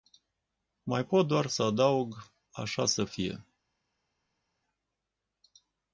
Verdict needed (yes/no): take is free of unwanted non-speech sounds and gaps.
yes